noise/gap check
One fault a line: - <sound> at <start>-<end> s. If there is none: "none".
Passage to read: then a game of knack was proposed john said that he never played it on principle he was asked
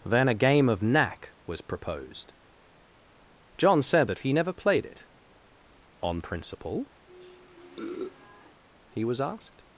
- sniff at 7.1-8.6 s